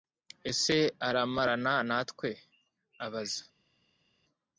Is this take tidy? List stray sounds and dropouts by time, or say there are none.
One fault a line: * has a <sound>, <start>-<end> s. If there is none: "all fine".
all fine